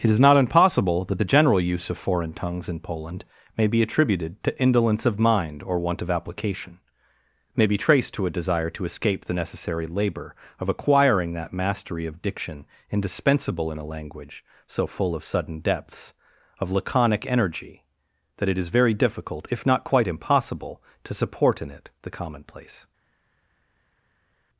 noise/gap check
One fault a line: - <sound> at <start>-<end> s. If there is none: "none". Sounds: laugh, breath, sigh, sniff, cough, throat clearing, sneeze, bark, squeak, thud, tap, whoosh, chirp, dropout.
none